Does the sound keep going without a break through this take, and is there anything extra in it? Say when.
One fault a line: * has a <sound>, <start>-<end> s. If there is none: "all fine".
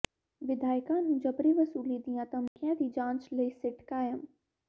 * has a dropout, 2.5-2.6 s